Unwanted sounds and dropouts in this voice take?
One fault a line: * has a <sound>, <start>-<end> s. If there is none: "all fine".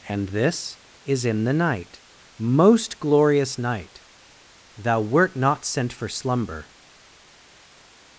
all fine